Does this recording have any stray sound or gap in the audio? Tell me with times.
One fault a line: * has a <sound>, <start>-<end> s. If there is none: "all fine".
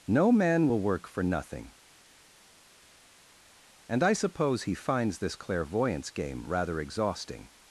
all fine